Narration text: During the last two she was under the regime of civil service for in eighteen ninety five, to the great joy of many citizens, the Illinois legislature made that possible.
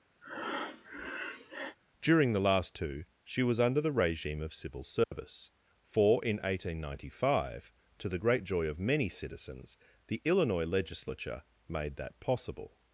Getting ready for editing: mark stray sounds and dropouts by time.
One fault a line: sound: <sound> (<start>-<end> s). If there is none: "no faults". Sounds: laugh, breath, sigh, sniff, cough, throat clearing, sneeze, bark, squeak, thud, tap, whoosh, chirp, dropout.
sound: breath (0.2-1.8 s)
sound: dropout (5.0-5.1 s)